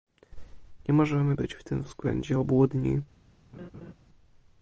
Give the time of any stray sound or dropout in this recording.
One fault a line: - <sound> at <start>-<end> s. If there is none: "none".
- laugh at 3.5-3.9 s